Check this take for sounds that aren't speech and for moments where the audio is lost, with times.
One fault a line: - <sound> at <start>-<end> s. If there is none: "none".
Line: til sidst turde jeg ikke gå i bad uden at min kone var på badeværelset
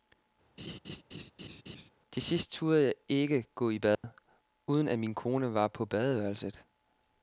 - laugh at 0.6-1.9 s
- dropout at 3.9-4.0 s